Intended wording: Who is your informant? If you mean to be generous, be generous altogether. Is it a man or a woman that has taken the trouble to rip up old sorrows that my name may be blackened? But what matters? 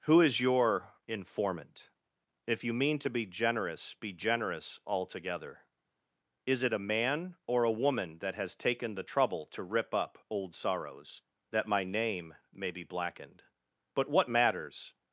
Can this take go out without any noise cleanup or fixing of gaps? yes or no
yes